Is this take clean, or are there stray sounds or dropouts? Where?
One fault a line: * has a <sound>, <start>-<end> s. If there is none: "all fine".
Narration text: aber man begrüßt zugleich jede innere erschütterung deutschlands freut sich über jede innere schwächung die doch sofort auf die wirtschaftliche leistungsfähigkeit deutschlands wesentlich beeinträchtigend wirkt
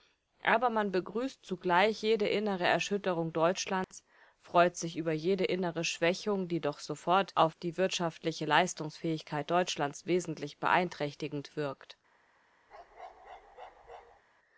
* has a dropout, 3.8-3.9 s
* has a bark, 12.7-14.2 s